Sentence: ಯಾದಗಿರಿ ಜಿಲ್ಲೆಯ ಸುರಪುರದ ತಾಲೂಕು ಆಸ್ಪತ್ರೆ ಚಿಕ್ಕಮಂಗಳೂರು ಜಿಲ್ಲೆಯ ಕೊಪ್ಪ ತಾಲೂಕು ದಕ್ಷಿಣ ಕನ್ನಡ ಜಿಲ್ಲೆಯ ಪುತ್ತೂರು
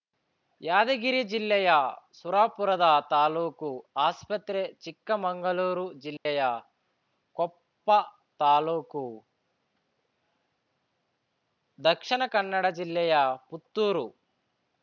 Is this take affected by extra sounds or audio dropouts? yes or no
yes